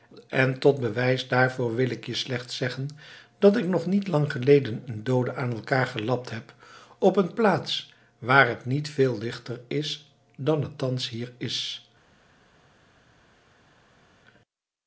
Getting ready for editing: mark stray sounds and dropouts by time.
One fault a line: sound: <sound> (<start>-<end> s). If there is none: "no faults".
no faults